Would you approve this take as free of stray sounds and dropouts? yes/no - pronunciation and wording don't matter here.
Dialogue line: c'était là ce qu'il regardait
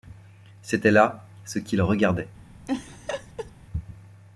no